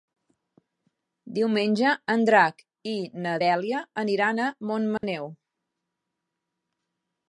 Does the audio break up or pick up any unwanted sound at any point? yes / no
yes